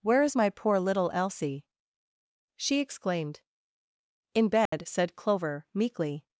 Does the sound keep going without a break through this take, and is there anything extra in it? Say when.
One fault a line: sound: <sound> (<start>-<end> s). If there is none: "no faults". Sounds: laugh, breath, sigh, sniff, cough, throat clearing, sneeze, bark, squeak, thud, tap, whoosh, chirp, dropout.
sound: dropout (4.7-4.7 s)